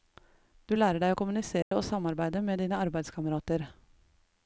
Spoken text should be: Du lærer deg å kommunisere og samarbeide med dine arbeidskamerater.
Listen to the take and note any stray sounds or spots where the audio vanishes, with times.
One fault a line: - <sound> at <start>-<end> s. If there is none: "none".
- dropout at 1.6-1.7 s